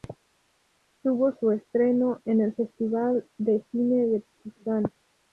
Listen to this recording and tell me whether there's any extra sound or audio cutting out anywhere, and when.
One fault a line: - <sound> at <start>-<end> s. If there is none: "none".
none